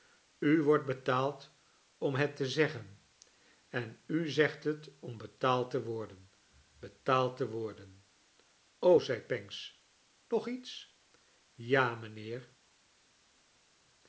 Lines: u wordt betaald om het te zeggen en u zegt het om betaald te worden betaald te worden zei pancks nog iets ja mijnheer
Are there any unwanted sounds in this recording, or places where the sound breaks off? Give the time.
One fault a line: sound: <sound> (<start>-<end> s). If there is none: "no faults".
no faults